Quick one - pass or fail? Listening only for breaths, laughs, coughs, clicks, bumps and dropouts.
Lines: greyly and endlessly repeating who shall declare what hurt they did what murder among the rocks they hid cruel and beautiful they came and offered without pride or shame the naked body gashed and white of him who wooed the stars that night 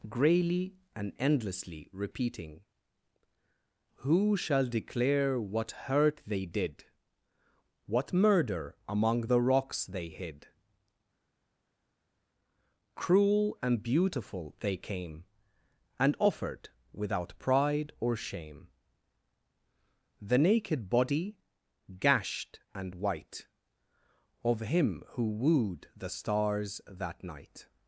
pass